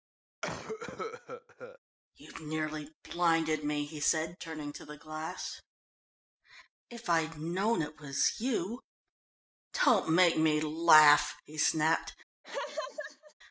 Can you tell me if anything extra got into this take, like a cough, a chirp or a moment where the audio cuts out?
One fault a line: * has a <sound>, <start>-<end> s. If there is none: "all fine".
* has a cough, 0.4-1.8 s
* has a laugh, 12.4-13.3 s